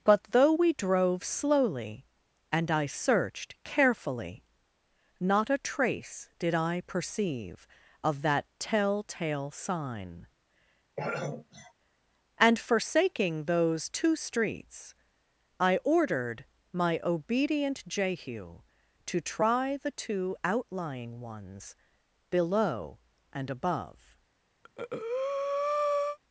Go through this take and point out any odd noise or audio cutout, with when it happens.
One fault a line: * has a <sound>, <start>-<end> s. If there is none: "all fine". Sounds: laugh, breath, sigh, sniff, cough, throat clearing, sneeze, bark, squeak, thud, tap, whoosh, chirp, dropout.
* has a throat clearing, 11.0-11.7 s
* has a breath, 24.6-26.2 s